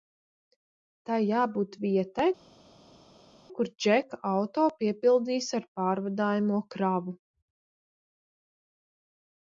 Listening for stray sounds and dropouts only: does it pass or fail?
pass